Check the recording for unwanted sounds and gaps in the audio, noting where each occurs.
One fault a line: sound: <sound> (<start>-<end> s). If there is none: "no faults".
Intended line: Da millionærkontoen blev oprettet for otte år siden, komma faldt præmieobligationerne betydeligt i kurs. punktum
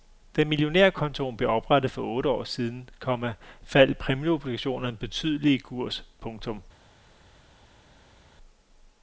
no faults